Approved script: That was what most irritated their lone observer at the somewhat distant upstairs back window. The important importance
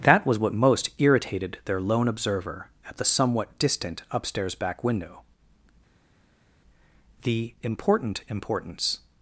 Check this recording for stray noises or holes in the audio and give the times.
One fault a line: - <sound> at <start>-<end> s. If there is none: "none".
none